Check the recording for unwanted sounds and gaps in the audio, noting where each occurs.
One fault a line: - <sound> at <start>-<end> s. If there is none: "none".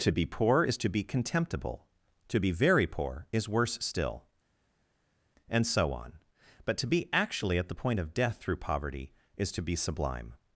none